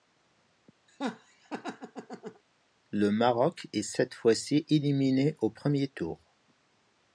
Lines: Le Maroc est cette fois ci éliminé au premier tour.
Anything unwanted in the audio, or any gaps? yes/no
yes